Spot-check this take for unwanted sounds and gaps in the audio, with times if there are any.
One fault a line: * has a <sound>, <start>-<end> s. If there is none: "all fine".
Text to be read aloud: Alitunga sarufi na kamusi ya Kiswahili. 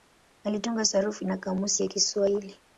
all fine